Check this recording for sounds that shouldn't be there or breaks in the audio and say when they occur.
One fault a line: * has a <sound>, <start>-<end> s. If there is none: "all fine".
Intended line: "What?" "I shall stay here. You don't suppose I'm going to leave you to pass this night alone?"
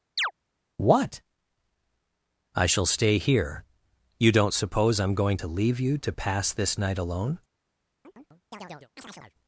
* has a chirp, 0.2-0.3 s
* has a chirp, 8.0-9.3 s